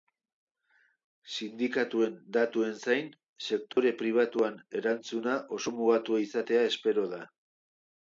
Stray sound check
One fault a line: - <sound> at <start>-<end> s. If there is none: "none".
- dropout at 3.7-3.8 s